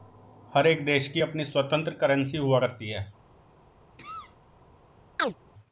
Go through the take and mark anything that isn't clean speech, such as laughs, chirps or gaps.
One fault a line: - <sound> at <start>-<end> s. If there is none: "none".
- cough at 4.0-4.4 s
- chirp at 5.2-5.4 s